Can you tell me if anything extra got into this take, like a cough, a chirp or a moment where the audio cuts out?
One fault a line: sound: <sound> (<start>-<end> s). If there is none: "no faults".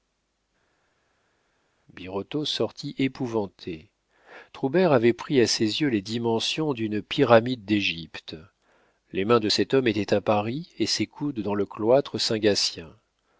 no faults